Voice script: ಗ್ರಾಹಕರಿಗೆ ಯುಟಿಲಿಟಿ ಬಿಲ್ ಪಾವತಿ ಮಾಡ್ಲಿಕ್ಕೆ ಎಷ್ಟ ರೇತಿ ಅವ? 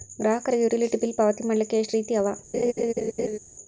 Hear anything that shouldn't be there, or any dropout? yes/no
yes